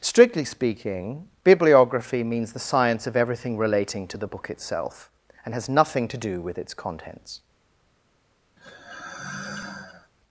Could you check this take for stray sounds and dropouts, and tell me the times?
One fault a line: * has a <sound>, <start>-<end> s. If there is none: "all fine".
* has a sigh, 8.6-10.1 s